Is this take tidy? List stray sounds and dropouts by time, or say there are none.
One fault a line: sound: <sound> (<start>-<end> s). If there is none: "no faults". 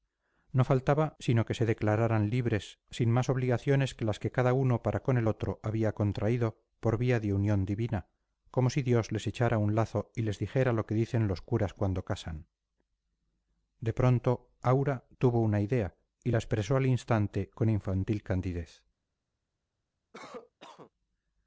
sound: cough (20.1-20.9 s)